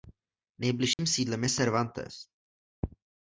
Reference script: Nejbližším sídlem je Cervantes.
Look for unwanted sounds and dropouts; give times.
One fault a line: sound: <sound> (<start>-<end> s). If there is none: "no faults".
sound: dropout (0.9-1.0 s)